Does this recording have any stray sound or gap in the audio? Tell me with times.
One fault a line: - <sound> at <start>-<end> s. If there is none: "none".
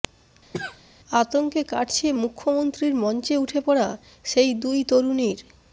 - cough at 0.5-0.8 s